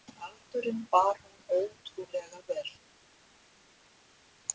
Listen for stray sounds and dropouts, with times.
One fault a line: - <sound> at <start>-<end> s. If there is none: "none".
none